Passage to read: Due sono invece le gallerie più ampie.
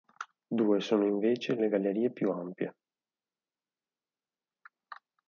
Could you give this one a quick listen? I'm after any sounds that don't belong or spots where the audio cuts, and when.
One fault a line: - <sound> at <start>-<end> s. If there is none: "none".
none